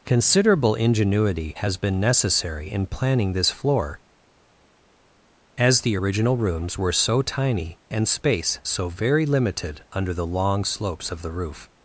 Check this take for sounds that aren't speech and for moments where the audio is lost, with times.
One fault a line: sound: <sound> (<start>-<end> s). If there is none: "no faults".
no faults